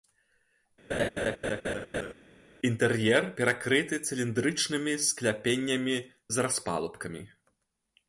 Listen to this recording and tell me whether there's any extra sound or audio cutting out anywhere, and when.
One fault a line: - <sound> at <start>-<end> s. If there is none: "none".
- laugh at 0.9-2.1 s